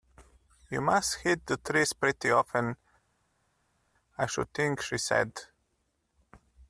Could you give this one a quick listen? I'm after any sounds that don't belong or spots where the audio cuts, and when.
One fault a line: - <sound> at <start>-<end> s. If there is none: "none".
none